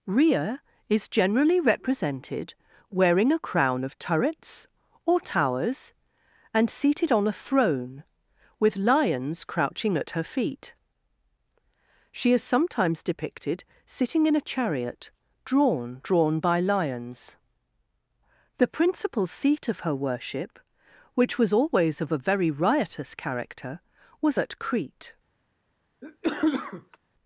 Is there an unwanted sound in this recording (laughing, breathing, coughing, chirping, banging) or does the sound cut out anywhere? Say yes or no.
yes